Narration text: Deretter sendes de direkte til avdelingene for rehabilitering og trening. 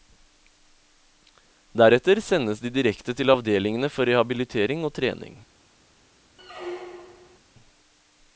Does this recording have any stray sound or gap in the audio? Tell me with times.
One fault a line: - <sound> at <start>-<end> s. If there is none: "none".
- squeak at 6.4-7.4 s